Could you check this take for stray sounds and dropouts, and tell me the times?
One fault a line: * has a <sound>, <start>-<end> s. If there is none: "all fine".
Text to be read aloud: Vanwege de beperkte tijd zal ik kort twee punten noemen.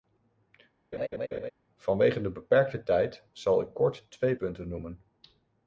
* has a laugh, 0.9-1.5 s